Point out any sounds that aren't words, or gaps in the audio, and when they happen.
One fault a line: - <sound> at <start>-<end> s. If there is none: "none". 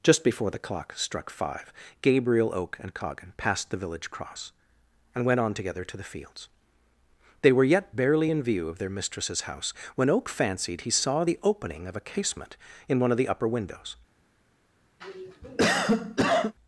- cough at 15.0-16.5 s